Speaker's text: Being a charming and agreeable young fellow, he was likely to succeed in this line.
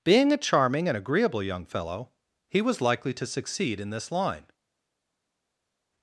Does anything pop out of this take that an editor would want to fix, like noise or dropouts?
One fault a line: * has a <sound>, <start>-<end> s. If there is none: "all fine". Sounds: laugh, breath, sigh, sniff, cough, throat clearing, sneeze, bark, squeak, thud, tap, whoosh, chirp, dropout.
all fine